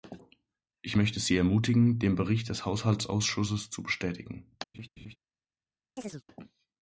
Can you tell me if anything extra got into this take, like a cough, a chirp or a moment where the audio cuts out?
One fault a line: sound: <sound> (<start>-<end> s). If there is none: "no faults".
sound: laugh (4.7-5.2 s)
sound: chirp (6.0-6.2 s)